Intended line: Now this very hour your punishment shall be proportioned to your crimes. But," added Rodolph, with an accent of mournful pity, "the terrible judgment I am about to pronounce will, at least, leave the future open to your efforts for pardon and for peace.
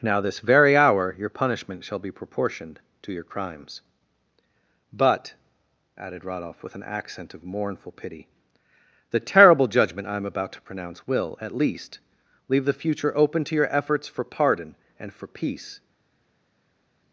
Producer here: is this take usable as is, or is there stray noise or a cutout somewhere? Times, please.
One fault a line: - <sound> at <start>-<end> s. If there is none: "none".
none